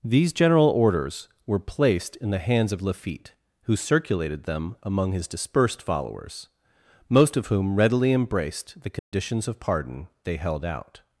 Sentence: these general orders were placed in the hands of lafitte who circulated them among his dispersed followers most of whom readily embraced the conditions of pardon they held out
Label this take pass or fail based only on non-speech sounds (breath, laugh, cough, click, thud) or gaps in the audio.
fail